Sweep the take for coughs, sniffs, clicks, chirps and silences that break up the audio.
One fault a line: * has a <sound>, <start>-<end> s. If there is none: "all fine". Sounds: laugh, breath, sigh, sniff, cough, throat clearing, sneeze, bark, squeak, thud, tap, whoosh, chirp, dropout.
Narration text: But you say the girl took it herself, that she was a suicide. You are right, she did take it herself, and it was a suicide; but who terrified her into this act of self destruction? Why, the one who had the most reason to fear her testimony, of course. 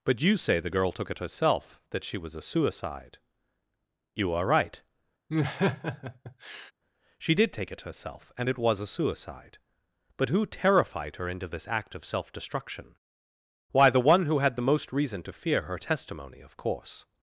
* has a laugh, 5.3-6.7 s